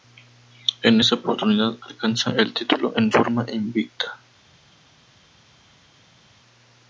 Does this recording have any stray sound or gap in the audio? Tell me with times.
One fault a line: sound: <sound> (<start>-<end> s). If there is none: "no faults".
no faults